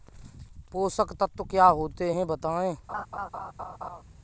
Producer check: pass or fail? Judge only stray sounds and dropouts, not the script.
fail